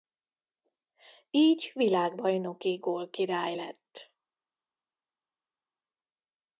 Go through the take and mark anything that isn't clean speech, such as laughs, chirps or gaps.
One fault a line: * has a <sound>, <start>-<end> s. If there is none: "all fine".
all fine